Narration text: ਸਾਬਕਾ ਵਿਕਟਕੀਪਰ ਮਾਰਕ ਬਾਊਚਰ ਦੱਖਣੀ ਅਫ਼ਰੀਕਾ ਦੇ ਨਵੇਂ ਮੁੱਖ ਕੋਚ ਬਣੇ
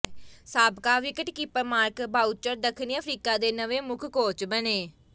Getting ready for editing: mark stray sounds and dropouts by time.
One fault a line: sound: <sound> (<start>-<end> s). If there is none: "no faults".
no faults